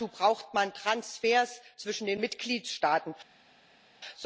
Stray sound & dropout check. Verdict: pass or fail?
pass